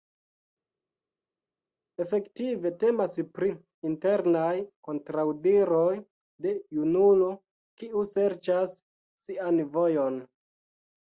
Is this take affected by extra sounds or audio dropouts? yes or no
no